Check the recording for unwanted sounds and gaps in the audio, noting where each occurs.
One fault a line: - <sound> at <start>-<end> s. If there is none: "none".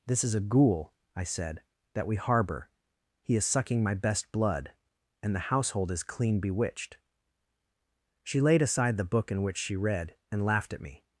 none